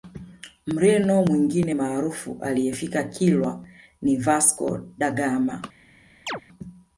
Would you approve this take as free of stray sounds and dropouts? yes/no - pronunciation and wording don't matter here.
no